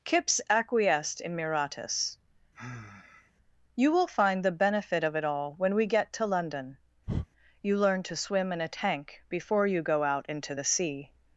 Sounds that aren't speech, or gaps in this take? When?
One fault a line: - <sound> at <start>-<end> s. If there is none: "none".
- sigh at 2.5-3.3 s
- breath at 7.1-7.3 s